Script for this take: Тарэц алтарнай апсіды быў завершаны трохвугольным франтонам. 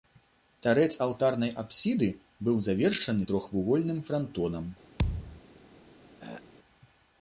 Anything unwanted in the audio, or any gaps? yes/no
yes